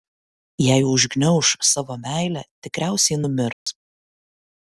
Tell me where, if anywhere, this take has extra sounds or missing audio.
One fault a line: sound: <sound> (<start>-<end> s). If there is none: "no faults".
sound: dropout (3.5-3.7 s)